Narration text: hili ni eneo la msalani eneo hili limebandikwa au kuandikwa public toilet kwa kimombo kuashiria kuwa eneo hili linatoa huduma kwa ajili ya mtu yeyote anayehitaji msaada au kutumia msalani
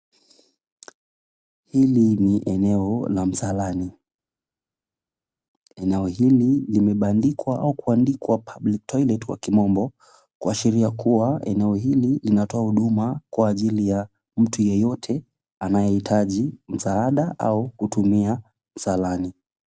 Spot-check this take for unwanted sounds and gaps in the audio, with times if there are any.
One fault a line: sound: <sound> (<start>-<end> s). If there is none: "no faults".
no faults